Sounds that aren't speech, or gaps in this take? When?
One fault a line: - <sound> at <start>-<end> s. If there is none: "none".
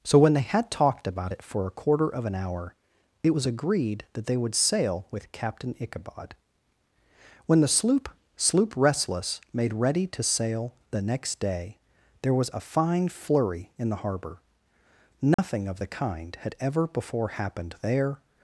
- dropout at 15.3-15.4 s